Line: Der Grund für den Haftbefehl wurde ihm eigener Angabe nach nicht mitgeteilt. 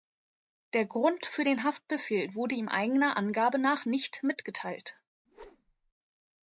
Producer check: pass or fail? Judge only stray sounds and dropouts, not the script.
fail